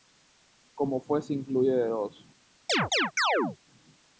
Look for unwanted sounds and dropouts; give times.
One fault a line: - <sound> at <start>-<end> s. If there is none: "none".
- chirp at 2.7-3.6 s